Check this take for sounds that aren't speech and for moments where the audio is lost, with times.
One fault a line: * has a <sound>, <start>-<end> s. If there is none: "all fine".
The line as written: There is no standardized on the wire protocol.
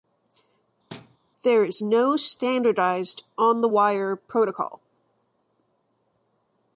* has a thud, 0.9-1.2 s